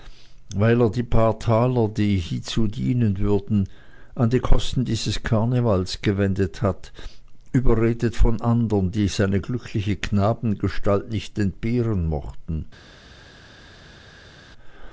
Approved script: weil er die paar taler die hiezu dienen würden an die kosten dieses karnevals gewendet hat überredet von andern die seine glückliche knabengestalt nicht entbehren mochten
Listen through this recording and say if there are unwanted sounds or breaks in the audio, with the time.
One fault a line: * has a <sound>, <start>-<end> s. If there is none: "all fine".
all fine